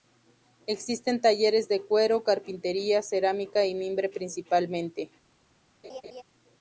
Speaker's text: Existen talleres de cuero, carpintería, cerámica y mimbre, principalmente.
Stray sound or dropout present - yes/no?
yes